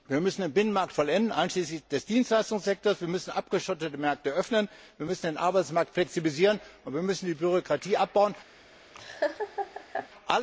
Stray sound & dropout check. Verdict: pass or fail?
fail